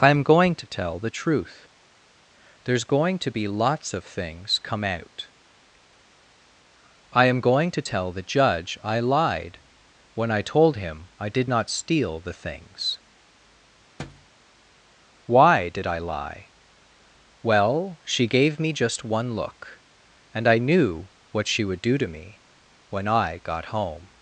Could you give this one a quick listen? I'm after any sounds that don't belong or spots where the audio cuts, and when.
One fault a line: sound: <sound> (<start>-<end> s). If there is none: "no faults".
sound: thud (14.0-14.3 s)